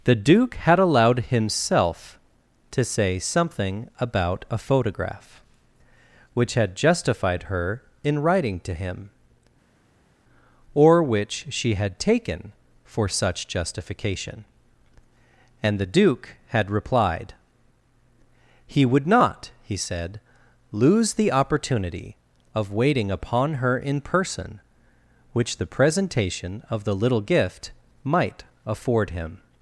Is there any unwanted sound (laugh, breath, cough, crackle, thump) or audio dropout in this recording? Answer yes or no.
no